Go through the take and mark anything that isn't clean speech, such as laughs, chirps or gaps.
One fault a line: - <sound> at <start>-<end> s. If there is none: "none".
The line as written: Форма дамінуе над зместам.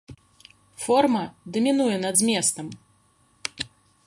none